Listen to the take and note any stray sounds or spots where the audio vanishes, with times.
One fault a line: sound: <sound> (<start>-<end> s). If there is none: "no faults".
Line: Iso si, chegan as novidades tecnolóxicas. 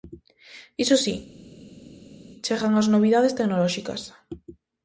no faults